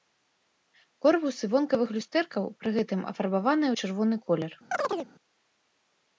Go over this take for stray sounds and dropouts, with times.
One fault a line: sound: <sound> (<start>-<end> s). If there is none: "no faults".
sound: chirp (4.7-5.1 s)